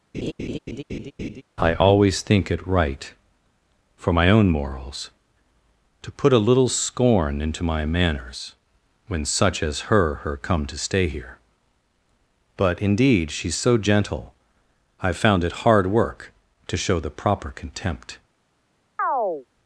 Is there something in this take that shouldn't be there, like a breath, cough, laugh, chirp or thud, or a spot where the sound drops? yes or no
yes